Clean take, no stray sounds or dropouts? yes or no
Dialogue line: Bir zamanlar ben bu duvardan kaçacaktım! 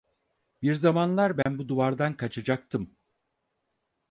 no